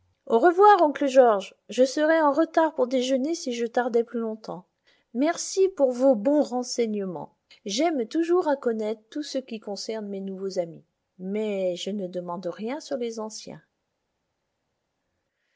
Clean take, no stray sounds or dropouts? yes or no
yes